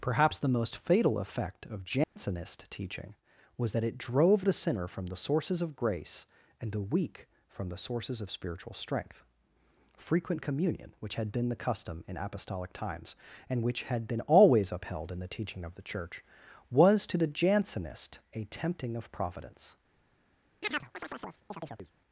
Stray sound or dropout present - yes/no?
yes